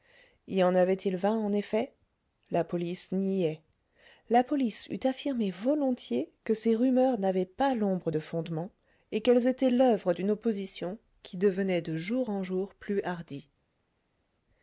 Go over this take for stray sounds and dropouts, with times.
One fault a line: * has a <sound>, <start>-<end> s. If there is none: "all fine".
all fine